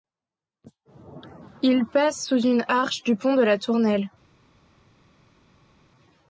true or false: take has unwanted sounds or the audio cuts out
false